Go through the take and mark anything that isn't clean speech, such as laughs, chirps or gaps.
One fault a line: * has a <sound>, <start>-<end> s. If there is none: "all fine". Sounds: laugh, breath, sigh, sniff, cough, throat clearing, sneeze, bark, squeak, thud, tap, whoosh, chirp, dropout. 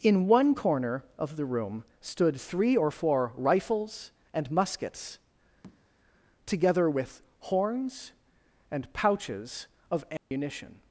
* has a tap, 5.6-5.9 s
* has a dropout, 10.2-10.3 s